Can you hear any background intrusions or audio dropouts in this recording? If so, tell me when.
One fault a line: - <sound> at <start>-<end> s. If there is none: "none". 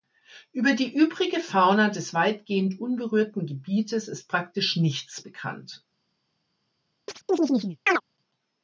- chirp at 7.1-8.0 s